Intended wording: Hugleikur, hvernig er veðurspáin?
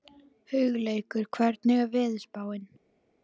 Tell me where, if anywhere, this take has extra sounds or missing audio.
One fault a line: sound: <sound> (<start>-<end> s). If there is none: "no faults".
no faults